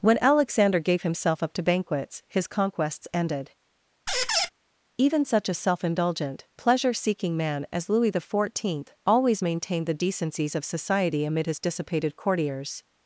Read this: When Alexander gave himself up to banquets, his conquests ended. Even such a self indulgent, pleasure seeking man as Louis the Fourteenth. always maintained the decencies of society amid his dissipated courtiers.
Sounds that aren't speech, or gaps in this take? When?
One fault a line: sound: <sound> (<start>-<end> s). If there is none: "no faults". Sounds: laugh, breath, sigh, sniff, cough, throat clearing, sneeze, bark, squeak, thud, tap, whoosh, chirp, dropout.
sound: squeak (4.1-4.5 s)